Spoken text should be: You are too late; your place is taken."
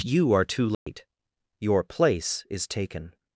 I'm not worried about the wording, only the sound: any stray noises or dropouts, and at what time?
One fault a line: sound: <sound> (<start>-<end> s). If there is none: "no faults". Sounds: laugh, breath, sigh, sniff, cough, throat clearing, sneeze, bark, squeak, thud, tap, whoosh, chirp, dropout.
sound: dropout (0.7-0.9 s)